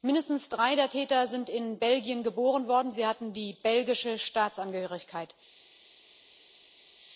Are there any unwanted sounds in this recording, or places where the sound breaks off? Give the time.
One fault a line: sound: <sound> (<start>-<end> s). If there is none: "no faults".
no faults